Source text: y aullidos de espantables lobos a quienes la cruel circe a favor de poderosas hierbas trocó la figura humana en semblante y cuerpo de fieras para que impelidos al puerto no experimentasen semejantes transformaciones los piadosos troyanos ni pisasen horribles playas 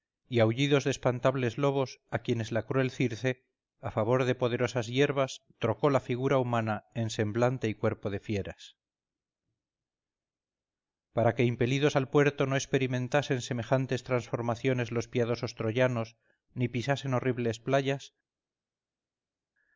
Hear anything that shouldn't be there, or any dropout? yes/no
no